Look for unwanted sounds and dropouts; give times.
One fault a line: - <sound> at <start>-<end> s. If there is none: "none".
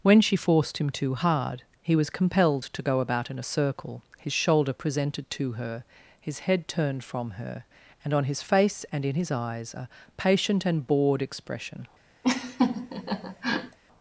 - laugh at 12.2-13.8 s